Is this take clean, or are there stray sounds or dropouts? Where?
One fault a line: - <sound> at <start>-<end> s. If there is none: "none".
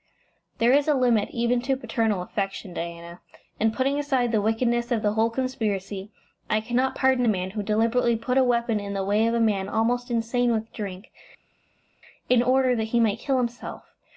none